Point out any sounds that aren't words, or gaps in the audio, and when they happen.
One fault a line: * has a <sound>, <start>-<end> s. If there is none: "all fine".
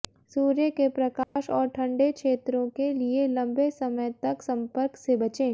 * has a dropout, 1.2-1.4 s